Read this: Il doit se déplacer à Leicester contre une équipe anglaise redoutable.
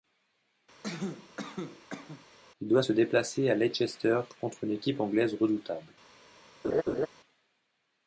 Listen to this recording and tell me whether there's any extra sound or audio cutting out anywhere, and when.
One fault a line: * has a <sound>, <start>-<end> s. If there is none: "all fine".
* has a cough, 0.8-2.3 s
* has a laugh, 6.6-7.1 s